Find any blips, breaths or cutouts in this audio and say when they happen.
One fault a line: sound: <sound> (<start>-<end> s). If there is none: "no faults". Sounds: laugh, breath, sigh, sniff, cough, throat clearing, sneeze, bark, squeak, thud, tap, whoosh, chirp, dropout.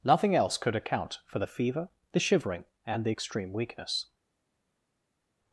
no faults